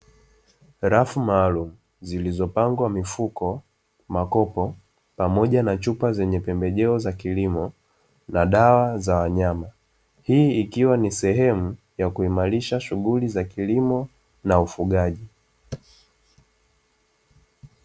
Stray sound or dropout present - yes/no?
no